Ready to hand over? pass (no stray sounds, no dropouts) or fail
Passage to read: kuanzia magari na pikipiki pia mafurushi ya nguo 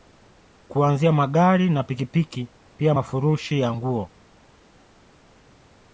pass